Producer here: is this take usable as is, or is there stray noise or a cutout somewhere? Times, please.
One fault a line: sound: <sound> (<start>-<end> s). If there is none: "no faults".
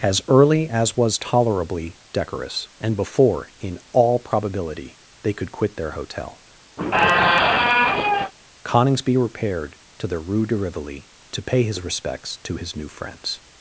sound: squeak (6.8-8.3 s)